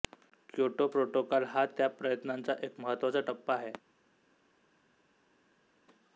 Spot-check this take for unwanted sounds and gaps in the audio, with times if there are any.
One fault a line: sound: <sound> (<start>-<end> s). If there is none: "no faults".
no faults